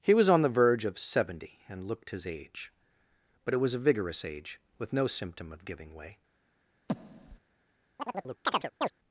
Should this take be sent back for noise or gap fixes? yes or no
yes